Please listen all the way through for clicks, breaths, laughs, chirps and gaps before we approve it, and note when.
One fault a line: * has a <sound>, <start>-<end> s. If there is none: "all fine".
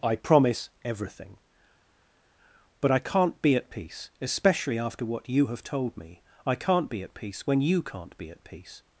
all fine